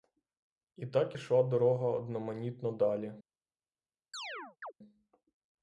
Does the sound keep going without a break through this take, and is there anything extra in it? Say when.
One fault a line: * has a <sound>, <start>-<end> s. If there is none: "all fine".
* has a chirp, 4.1-4.7 s